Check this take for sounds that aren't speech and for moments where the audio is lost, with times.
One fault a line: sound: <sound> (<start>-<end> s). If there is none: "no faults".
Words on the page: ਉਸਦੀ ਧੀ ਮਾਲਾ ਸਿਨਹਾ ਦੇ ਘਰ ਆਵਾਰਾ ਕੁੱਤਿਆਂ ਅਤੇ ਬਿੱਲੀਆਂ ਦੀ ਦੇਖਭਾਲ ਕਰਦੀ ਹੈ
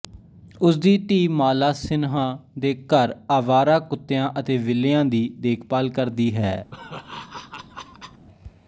sound: laugh (6.7-8.3 s)